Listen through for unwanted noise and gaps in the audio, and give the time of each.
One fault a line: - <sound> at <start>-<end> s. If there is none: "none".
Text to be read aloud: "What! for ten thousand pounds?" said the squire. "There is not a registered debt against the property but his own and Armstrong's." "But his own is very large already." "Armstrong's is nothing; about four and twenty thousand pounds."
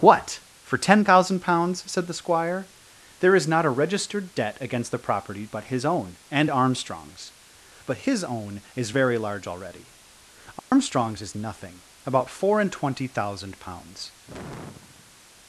- dropout at 10.6-10.7 s
- sigh at 14.3-15.3 s